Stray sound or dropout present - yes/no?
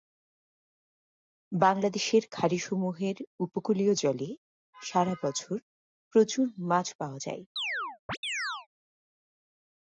yes